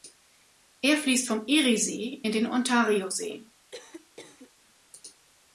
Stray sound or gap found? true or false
true